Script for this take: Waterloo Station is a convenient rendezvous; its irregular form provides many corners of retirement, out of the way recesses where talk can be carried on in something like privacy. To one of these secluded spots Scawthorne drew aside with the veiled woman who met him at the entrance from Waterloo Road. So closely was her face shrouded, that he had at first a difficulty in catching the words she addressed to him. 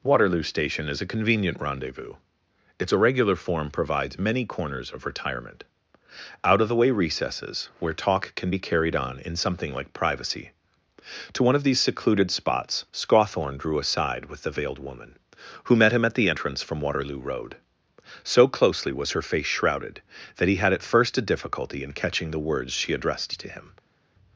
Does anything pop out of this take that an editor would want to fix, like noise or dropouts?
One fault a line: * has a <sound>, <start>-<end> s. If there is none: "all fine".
all fine